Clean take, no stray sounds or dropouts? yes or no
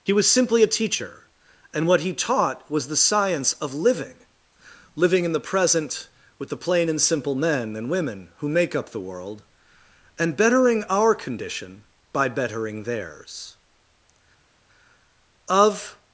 yes